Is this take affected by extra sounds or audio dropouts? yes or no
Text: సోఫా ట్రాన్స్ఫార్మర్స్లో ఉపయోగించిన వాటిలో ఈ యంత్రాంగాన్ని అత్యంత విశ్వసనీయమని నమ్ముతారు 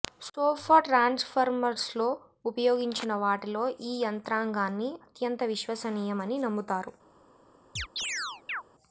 yes